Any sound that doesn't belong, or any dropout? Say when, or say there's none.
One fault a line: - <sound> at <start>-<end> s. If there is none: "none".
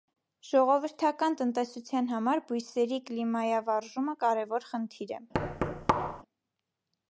- thud at 5.3-6.2 s